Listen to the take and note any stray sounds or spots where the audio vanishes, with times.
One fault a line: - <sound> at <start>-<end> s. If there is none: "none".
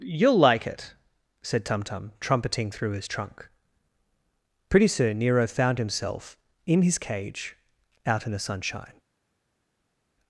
none